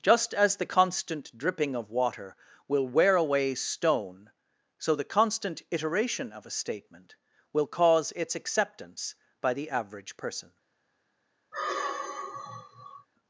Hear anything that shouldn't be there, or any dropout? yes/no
yes